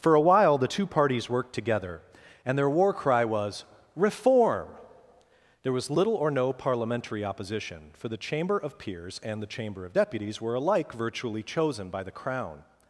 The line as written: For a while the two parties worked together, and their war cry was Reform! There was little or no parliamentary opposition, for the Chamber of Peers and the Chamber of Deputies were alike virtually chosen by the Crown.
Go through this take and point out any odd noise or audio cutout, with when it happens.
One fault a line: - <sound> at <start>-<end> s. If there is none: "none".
none